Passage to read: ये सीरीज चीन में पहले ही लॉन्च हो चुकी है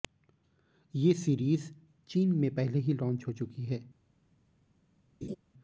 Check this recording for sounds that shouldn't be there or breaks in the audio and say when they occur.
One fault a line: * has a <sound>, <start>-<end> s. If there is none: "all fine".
* has a laugh, 5.2-5.4 s